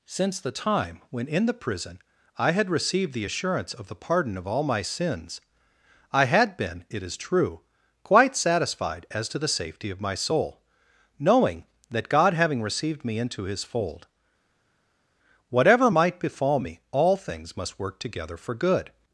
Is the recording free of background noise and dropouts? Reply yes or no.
yes